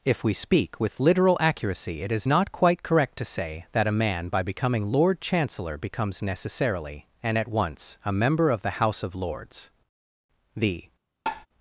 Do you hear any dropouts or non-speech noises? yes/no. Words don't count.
yes